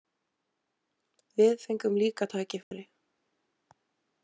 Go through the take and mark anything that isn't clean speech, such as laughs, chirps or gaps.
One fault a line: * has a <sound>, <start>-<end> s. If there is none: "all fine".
* has a dropout, 2.6-2.7 s